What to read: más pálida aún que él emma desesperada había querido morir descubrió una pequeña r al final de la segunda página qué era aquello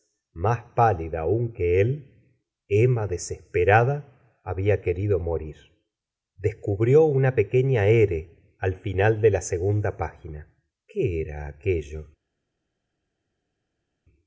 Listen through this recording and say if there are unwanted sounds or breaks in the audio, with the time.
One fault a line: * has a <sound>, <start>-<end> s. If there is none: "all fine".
all fine